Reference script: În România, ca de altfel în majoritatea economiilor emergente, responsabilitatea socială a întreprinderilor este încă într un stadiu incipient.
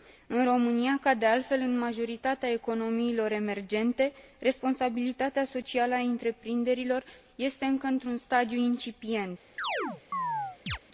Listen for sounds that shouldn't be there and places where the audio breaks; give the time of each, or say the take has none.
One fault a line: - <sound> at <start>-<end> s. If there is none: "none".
- chirp at 9.6-10.8 s